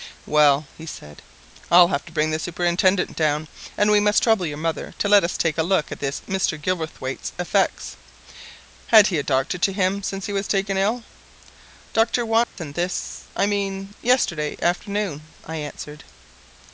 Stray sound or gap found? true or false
true